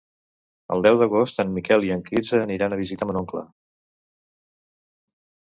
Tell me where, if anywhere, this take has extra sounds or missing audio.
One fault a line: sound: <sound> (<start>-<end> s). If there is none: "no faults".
no faults